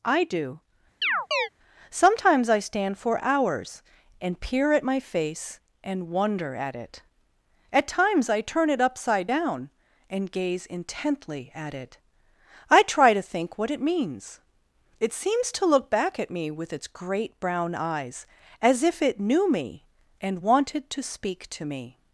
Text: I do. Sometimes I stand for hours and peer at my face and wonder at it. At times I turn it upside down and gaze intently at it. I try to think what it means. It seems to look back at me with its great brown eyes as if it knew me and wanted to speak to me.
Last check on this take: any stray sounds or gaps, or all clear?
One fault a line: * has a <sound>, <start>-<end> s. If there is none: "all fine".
* has a chirp, 1.0-1.5 s